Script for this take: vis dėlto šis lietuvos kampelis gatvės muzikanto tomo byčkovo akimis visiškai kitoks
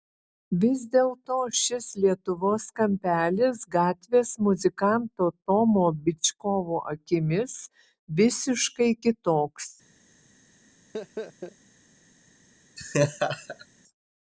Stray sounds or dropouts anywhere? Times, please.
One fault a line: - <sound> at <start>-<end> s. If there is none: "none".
- laugh at 10.9-11.6 s
- laugh at 12.8-13.7 s